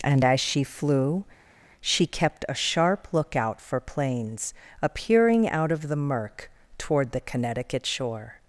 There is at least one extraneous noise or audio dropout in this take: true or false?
false